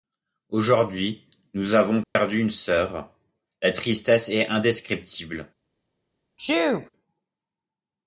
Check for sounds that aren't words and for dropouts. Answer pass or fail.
fail